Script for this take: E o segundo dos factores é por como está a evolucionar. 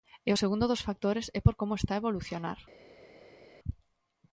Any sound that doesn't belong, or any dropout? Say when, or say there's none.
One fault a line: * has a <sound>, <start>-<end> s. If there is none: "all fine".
all fine